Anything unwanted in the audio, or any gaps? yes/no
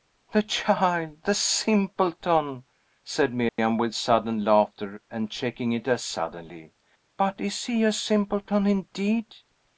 yes